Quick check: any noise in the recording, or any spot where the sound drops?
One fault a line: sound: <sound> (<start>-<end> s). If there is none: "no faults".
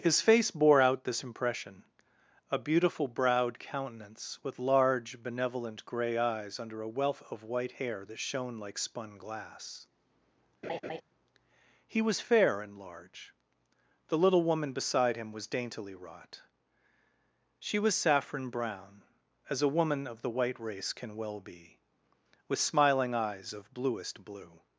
sound: laugh (10.6-11.0 s)